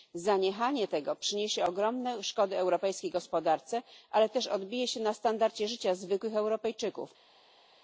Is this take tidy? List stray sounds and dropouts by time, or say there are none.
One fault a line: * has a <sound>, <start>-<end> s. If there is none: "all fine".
all fine